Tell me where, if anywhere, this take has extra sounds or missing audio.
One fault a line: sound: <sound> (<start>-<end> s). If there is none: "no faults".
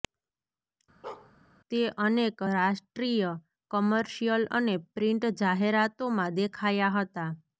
sound: bark (1.0-1.3 s)